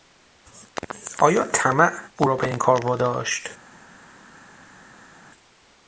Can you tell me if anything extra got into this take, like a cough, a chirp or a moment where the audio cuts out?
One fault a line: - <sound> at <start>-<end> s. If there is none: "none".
none